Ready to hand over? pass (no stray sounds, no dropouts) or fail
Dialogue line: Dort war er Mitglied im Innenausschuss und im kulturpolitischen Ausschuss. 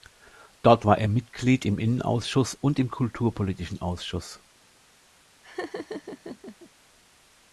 fail